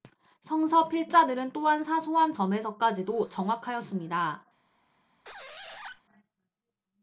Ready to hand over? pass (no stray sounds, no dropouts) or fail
fail